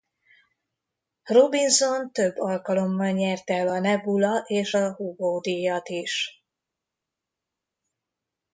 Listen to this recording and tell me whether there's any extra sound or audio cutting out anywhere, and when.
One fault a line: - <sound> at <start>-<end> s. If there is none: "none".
none